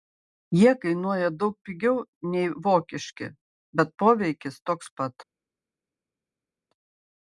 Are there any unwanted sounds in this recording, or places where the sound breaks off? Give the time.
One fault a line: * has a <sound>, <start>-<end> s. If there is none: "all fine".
all fine